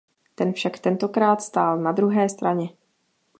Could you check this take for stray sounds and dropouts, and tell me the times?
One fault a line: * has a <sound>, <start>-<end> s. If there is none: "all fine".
all fine